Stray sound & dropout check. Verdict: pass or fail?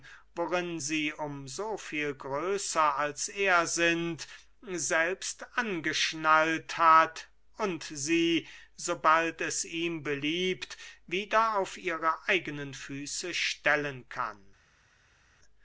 pass